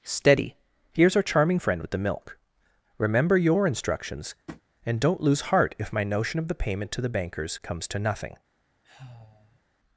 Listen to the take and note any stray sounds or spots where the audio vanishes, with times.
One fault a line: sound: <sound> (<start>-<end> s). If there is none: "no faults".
sound: tap (4.5-4.6 s)
sound: sigh (8.8-9.6 s)